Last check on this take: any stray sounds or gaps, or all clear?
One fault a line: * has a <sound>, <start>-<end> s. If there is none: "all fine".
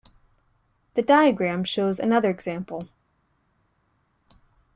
all fine